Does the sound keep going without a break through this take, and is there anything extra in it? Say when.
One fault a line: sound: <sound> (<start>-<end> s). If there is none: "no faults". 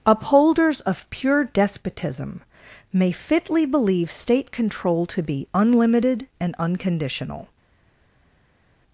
no faults